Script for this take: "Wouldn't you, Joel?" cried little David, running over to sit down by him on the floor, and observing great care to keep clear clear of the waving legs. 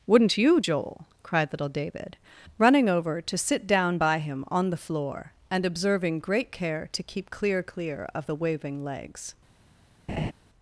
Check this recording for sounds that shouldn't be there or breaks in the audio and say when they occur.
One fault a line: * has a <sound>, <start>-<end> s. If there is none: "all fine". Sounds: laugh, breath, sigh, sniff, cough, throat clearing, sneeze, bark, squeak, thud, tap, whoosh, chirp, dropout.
* has a laugh, 10.1-10.3 s